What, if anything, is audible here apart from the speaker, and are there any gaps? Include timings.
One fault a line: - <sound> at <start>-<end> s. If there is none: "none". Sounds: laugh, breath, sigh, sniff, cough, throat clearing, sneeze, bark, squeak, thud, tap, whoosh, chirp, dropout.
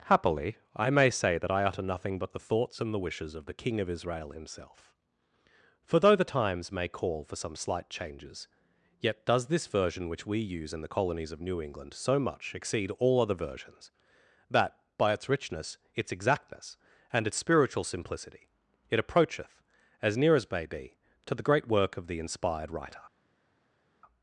none